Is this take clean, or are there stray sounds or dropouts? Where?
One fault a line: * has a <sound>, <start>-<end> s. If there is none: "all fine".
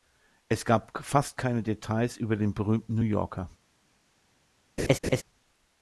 * has a laugh, 4.8-5.2 s